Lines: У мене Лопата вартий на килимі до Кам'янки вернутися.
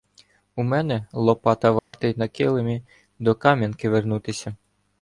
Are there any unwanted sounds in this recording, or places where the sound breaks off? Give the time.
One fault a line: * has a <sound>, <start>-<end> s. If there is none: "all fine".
* has a dropout, 1.8-1.9 s